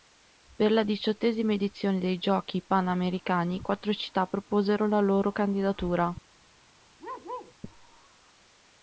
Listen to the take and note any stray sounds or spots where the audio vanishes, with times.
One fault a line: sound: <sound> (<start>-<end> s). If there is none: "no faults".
sound: bark (7.0-7.5 s)